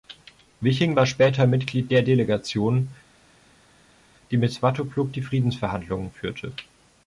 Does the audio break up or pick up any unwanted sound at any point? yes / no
no